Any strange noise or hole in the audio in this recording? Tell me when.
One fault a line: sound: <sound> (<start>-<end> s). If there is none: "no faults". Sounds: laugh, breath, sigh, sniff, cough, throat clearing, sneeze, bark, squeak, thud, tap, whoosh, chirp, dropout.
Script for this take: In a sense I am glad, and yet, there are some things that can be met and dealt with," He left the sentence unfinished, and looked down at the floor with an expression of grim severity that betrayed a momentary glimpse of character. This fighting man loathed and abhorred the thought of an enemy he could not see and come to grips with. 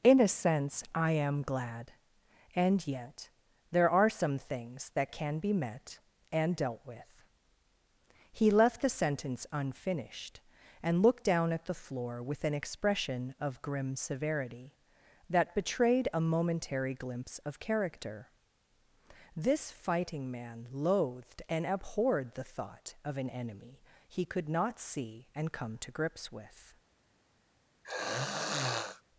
sound: throat clearing (27.8-29.0 s)